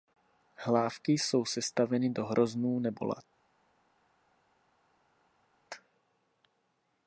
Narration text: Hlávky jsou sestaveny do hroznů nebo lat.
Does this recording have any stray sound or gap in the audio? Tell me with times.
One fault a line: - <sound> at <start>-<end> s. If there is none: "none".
none